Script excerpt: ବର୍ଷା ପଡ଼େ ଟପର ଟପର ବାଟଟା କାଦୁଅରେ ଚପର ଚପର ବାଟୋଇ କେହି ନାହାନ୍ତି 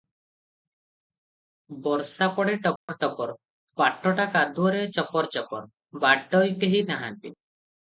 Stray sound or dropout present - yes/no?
yes